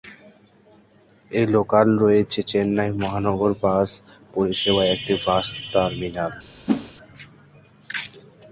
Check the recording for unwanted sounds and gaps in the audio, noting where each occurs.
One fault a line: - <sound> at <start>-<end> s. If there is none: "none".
- whoosh at 6.7-6.9 s